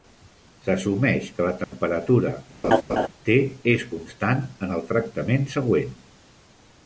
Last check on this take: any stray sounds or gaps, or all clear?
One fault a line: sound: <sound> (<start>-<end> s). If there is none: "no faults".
sound: dropout (1.6-1.7 s)
sound: laugh (2.6-3.1 s)